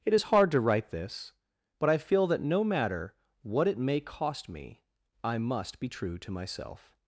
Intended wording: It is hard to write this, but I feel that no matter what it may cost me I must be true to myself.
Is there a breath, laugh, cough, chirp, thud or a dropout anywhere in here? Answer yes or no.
no